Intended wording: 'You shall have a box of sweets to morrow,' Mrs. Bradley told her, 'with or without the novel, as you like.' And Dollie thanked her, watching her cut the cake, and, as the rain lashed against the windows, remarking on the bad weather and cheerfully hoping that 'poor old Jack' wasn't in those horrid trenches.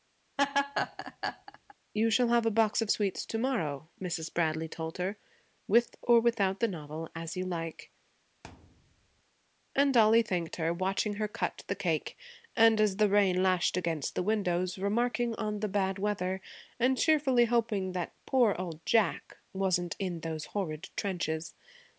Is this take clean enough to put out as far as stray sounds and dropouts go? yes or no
no